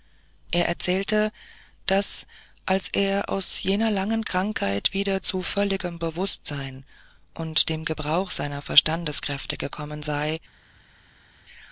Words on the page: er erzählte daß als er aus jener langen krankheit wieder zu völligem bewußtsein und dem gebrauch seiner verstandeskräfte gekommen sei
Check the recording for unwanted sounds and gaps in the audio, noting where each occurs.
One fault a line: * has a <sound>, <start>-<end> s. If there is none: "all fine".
all fine